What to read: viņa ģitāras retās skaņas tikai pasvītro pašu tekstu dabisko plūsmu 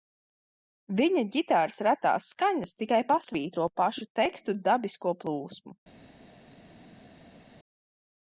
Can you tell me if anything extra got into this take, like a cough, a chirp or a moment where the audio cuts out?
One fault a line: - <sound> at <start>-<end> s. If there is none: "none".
none